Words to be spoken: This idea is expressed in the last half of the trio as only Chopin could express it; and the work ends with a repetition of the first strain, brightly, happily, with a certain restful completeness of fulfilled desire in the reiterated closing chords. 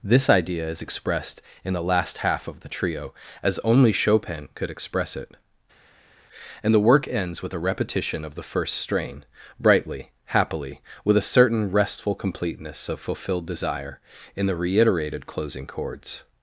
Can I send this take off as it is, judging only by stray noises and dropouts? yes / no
yes